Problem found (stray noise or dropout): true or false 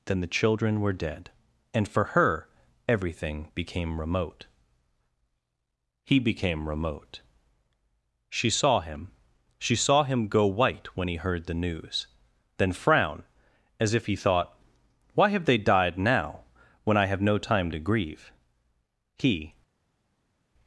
false